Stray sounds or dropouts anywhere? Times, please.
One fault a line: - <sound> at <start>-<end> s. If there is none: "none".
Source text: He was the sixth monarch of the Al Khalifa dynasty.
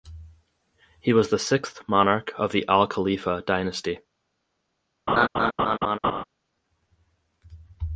- laugh at 5.1-6.2 s